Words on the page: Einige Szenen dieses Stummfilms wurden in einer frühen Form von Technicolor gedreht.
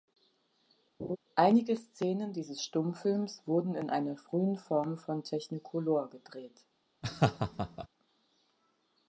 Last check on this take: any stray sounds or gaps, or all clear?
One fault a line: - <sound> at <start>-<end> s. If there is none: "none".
- laugh at 1.0-1.2 s
- laugh at 7.0-7.9 s